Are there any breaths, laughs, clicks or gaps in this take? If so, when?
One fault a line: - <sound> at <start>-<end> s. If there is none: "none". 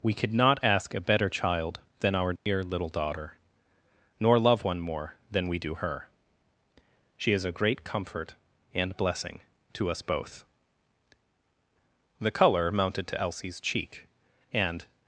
- dropout at 2.4-2.5 s